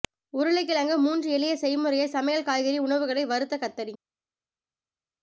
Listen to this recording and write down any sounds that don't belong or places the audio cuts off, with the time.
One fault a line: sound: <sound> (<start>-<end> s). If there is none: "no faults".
no faults